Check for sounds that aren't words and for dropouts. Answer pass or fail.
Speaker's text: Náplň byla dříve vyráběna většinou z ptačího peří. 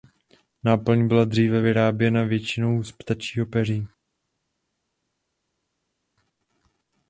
pass